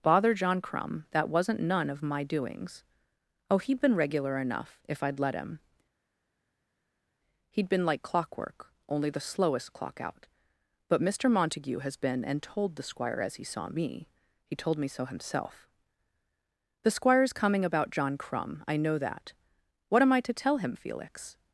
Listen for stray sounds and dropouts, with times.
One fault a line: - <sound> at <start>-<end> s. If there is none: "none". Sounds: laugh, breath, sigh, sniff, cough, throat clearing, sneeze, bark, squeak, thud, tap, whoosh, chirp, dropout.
none